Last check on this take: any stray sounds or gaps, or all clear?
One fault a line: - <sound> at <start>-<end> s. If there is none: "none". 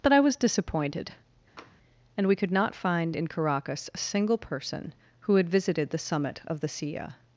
- tap at 1.6-1.8 s